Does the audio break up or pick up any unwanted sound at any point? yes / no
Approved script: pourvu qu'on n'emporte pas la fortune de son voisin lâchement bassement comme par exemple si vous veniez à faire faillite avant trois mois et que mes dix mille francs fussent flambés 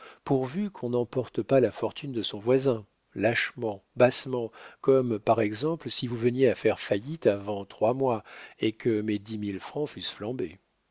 no